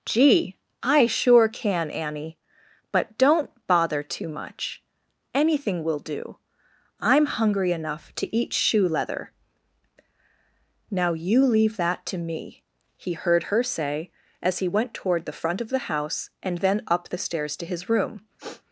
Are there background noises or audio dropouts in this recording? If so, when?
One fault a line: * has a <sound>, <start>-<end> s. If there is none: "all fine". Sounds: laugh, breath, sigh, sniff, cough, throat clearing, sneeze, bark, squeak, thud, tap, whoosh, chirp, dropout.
* has a sniff, 18.4-18.6 s